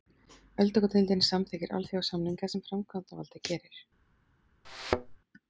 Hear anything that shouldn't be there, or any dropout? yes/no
yes